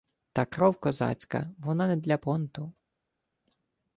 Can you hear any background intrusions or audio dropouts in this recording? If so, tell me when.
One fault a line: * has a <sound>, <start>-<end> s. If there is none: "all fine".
all fine